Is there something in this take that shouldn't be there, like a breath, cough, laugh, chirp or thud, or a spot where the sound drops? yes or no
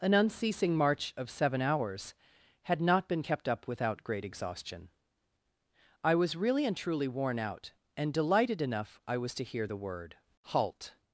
no